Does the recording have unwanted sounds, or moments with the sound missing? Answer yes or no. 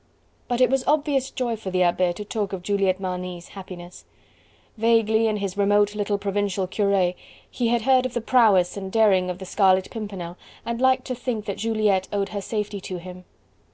no